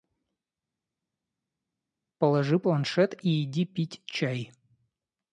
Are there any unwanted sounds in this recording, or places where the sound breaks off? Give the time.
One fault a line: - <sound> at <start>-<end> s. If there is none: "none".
none